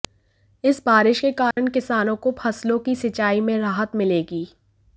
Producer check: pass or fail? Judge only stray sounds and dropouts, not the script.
fail